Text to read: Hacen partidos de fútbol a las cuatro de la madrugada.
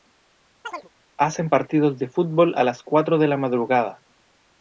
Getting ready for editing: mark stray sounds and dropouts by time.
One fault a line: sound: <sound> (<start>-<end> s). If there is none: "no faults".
sound: chirp (0.6-0.9 s)